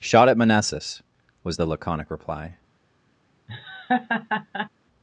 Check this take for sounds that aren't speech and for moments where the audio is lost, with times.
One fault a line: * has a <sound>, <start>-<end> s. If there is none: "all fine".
* has a laugh, 3.5-4.7 s